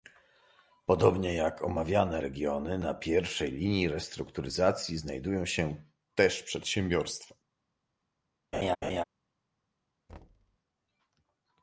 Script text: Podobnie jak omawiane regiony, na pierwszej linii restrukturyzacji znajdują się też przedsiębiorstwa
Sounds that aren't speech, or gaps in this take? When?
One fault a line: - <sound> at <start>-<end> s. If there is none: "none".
- laugh at 8.5-9.0 s
- thud at 10.1-10.6 s